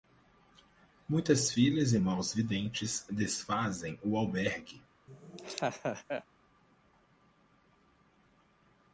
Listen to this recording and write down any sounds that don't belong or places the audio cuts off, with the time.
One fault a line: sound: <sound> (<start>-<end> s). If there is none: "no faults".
sound: laugh (5.1-6.2 s)